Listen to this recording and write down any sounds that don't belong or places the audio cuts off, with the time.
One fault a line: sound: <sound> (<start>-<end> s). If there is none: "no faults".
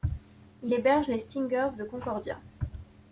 no faults